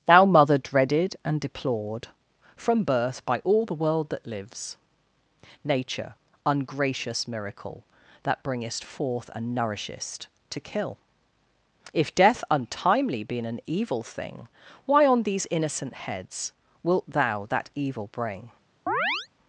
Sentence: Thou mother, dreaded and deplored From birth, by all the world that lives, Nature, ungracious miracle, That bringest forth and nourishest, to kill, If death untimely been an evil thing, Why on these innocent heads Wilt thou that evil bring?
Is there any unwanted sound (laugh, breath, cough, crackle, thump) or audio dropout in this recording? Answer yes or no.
yes